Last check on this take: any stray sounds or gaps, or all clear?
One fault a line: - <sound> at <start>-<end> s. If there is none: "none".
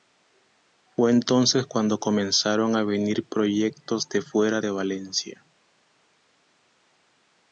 none